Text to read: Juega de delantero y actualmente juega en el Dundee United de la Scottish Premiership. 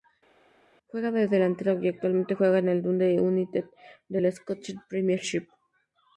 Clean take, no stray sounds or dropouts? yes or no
yes